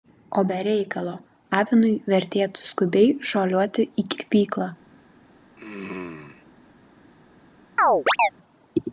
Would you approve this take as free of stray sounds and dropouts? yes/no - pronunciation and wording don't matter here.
no